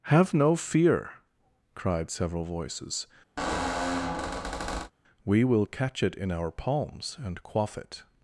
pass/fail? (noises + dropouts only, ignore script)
fail